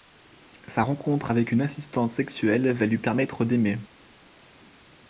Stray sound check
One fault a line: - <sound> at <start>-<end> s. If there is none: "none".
none